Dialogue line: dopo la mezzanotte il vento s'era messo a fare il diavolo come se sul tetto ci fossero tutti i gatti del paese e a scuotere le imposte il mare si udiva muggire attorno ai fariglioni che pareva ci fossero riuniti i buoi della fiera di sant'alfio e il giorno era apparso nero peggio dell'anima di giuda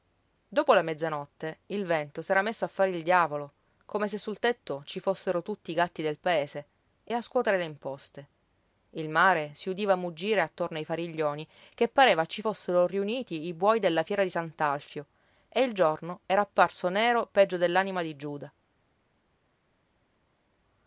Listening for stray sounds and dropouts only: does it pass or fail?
pass